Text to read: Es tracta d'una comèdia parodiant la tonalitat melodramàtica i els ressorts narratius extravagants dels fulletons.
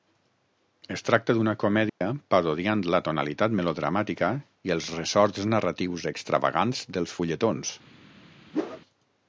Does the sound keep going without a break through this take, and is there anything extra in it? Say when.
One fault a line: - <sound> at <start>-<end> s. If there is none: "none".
- dropout at 1.9-2.0 s
- whoosh at 8.5-8.8 s